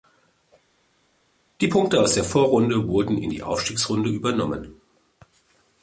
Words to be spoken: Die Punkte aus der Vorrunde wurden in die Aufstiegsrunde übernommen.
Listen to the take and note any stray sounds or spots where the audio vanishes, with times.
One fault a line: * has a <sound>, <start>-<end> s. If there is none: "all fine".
all fine